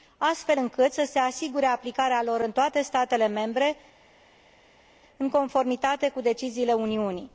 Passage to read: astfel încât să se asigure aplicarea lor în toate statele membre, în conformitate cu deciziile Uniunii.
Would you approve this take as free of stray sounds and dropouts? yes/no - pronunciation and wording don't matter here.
yes